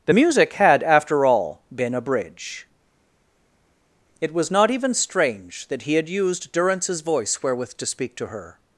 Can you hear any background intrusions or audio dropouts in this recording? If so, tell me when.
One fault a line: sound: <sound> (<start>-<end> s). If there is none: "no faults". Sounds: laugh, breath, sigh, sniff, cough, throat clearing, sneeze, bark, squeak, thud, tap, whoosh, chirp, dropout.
no faults